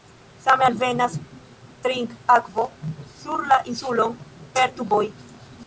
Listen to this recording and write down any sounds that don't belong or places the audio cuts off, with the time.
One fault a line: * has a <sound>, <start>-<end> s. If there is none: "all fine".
all fine